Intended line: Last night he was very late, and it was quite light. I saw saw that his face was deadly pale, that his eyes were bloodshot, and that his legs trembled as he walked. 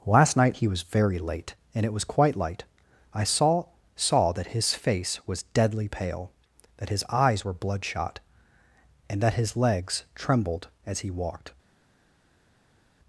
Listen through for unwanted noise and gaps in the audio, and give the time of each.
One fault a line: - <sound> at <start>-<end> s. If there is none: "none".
none